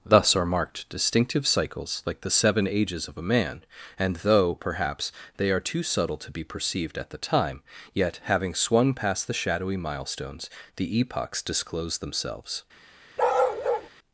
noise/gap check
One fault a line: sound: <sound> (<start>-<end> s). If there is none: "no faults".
sound: bark (13.2-13.9 s)